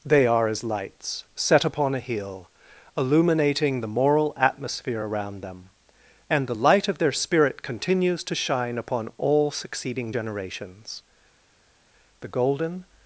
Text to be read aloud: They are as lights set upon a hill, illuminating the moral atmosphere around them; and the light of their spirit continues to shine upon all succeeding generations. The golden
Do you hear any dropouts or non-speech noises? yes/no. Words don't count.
no